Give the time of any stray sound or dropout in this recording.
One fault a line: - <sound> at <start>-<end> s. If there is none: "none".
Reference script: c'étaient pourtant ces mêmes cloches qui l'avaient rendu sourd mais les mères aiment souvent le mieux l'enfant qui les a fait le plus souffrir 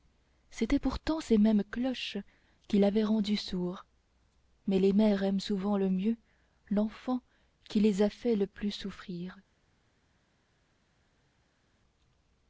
none